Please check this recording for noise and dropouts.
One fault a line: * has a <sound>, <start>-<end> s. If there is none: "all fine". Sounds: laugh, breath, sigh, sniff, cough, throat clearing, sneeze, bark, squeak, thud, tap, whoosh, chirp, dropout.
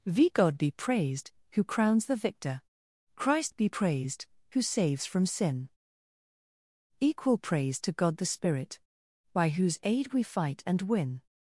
all fine